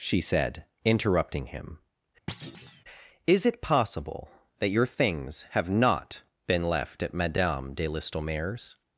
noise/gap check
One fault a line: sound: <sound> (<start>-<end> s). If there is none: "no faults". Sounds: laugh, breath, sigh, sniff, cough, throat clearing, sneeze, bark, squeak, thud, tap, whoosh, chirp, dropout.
sound: thud (2.3-2.8 s)